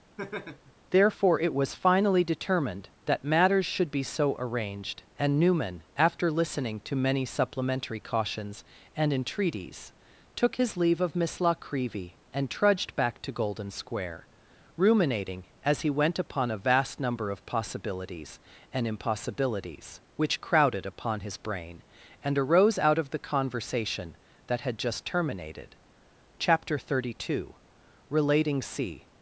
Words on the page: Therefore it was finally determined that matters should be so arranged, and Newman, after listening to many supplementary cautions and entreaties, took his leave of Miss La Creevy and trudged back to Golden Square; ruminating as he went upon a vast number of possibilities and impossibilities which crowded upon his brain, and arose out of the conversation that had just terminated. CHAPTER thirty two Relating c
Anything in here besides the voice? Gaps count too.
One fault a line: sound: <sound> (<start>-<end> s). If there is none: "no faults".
sound: laugh (0.2-0.7 s)